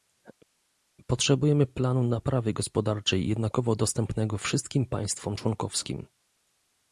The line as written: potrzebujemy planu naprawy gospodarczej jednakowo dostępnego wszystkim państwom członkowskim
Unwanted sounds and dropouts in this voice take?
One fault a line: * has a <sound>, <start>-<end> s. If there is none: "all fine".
all fine